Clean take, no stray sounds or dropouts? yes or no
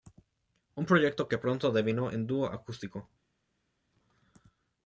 yes